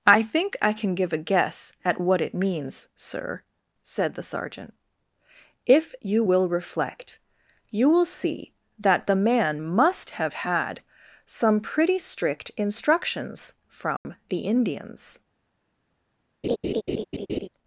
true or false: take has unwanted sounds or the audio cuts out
true